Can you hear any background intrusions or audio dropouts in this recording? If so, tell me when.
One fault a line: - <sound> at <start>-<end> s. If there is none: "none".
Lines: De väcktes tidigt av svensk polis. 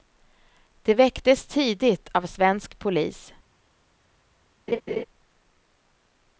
- laugh at 4.7-5.0 s